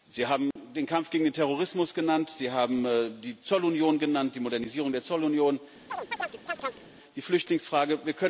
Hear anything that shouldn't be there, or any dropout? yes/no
yes